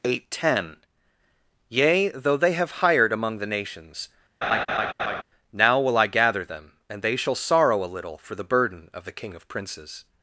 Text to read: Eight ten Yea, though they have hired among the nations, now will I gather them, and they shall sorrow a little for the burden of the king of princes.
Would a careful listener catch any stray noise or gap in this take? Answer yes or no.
yes